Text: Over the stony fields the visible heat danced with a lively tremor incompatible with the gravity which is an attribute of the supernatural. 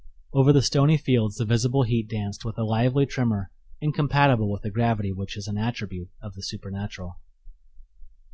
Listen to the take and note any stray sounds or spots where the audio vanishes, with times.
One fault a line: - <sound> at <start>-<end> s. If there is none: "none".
none